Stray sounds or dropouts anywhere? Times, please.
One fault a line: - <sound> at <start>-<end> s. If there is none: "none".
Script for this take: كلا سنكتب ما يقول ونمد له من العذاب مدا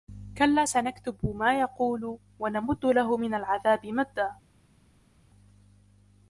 none